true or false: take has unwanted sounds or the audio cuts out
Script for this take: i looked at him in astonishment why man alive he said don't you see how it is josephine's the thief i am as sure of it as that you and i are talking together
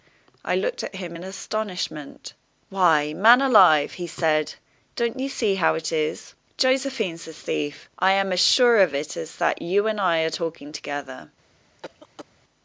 true